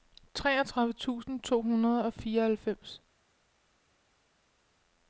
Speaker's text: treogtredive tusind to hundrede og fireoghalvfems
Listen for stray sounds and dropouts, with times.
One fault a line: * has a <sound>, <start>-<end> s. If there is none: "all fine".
all fine